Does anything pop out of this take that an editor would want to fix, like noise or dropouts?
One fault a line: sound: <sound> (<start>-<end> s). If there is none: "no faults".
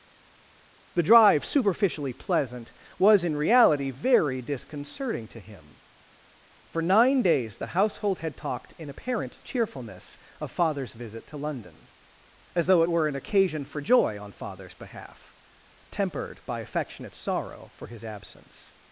no faults